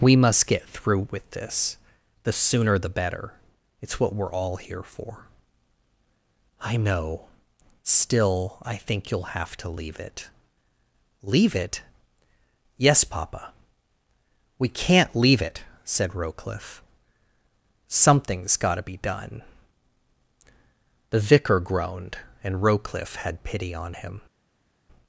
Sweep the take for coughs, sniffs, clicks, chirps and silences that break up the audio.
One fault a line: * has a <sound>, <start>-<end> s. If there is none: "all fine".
all fine